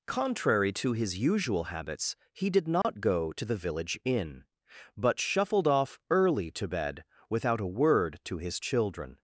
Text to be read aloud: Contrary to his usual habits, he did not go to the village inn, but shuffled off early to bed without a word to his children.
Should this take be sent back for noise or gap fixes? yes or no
yes